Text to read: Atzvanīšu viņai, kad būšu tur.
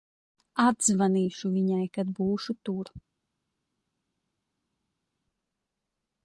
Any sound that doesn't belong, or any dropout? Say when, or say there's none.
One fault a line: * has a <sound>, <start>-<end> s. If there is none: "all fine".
all fine